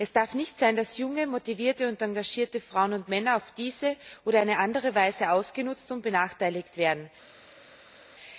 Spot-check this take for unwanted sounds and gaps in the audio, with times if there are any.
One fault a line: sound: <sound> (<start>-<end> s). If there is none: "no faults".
no faults